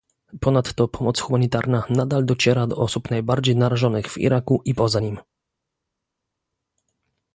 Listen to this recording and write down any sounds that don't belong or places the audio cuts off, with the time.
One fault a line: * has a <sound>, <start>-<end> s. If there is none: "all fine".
all fine